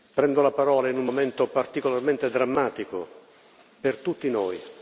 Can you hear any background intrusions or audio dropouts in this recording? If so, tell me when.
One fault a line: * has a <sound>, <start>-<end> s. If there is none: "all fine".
all fine